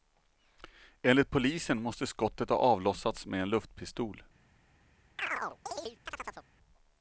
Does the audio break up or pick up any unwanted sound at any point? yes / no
yes